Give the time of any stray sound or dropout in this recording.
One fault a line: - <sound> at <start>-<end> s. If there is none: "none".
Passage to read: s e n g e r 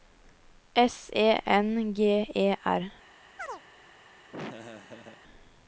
- chirp at 3.4-3.6 s
- laugh at 4.3-5.2 s